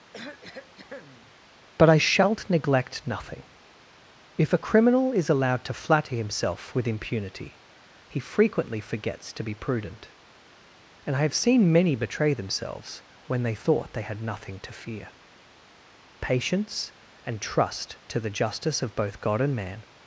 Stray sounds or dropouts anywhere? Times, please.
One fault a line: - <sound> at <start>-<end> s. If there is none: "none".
- cough at 0.1-1.3 s